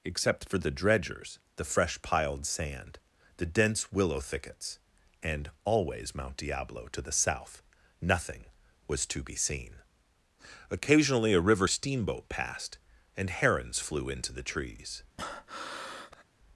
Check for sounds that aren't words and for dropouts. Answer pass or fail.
fail